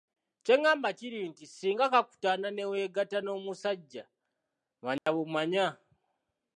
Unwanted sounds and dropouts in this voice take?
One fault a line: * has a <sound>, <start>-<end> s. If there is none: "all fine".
* has a dropout, 5.0-5.1 s